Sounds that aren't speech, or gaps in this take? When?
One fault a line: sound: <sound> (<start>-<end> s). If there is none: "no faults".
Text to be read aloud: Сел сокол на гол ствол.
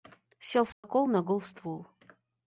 sound: dropout (0.7-0.8 s)